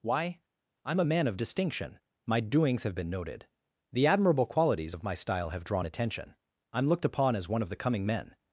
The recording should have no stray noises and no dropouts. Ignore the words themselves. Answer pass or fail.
pass